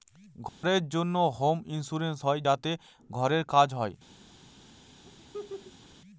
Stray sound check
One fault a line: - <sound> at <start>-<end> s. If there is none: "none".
- dropout at 0.5-0.6 s
- laugh at 5.0-5.9 s